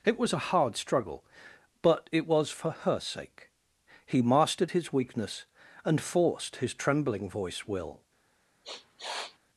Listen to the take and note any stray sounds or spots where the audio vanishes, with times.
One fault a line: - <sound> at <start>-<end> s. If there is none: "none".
- sniff at 8.6-9.4 s